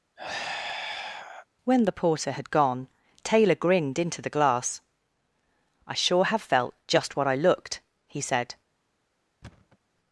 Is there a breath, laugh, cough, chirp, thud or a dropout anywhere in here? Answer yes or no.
yes